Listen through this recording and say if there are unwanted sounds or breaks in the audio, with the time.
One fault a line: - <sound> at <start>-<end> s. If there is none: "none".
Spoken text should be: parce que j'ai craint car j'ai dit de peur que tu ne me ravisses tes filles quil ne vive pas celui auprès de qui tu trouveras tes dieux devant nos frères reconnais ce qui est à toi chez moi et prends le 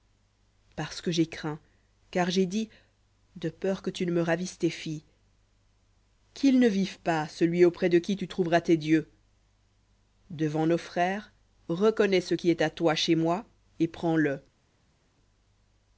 none